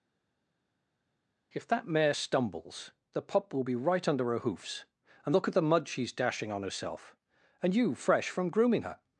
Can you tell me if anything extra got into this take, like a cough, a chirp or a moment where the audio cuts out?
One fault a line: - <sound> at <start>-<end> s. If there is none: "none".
none